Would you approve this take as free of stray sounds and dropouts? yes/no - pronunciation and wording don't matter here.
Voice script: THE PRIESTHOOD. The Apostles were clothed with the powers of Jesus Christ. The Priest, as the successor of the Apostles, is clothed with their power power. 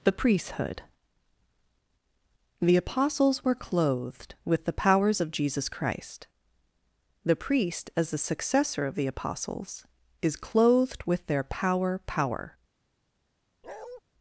no